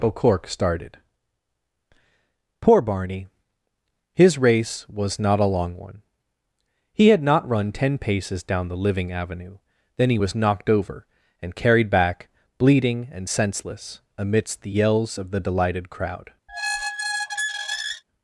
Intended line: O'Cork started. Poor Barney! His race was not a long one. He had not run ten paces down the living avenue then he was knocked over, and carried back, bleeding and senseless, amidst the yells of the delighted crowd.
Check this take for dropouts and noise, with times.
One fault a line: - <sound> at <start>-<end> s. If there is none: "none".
- squeak at 16.5-18.0 s